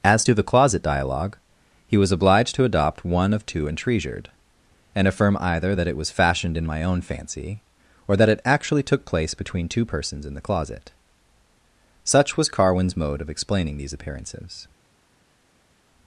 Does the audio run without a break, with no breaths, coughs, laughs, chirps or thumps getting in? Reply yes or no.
yes